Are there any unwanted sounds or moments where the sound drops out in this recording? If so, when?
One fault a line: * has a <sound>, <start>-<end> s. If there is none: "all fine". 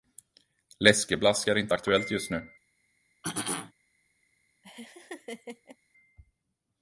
* has a throat clearing, 3.2-3.7 s
* has a laugh, 4.6-5.8 s